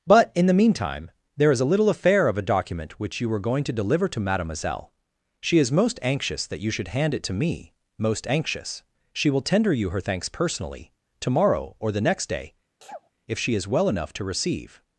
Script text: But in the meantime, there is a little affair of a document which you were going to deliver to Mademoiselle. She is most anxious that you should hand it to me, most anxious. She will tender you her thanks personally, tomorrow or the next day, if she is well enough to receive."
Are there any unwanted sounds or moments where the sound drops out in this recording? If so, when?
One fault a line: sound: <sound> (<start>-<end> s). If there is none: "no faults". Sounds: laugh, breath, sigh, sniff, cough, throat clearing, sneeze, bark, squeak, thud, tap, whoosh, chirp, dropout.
sound: sneeze (12.8-13.1 s)